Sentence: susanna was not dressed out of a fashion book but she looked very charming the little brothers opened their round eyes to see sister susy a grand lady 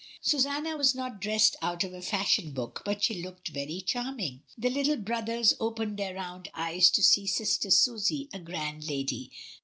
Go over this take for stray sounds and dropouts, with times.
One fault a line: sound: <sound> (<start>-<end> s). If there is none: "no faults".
no faults